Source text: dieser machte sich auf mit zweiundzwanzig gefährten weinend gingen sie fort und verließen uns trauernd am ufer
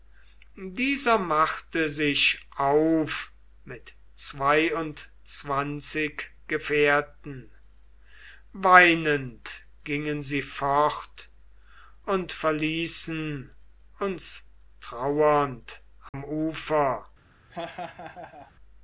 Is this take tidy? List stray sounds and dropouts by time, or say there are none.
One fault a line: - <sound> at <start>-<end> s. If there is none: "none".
- dropout at 16.1-16.1 s
- laugh at 17.5-18.5 s